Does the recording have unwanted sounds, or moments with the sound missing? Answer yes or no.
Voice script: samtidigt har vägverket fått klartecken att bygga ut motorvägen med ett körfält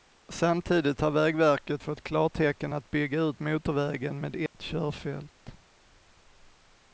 yes